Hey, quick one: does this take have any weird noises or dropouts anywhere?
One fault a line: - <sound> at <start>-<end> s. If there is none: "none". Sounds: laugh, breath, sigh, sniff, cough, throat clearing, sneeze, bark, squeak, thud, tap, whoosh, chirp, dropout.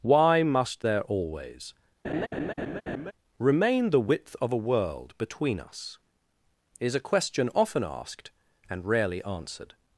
- laugh at 2.0-3.1 s